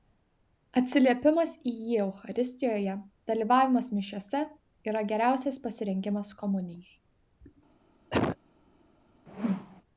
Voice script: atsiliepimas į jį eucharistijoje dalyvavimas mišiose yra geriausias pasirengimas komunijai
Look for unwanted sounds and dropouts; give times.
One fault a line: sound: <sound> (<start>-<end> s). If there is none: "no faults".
sound: cough (8.1-8.4 s)
sound: whoosh (9.3-9.8 s)